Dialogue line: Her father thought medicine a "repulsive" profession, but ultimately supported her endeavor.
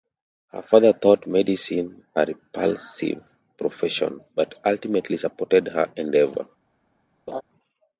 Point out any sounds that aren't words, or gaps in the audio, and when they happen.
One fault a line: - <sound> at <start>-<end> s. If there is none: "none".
- laugh at 7.3-7.4 s